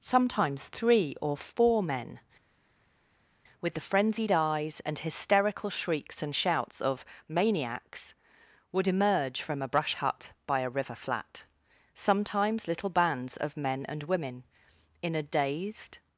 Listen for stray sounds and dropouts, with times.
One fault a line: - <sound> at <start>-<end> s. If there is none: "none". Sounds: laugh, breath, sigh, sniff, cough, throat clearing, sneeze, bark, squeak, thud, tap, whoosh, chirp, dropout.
none